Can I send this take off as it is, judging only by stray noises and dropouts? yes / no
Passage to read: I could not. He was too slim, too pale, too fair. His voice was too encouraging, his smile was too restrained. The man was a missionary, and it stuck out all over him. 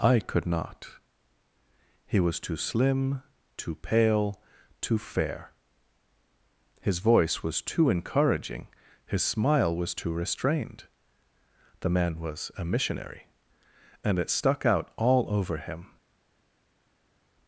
yes